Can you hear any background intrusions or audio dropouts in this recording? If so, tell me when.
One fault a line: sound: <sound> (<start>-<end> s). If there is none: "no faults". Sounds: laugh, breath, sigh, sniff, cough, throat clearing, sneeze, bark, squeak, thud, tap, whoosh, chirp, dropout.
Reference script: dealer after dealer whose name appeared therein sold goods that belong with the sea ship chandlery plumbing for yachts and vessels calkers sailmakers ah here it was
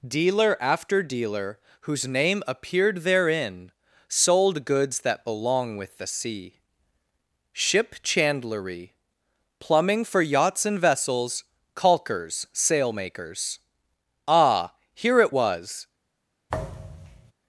sound: thud (16.5-17.3 s)